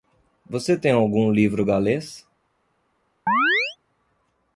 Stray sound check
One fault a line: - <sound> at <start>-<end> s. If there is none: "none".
- chirp at 3.3-3.8 s